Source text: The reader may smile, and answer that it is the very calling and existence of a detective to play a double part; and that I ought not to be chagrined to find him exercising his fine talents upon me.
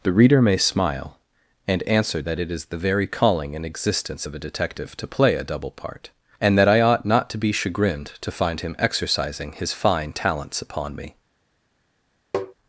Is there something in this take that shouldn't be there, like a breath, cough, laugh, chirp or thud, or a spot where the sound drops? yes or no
yes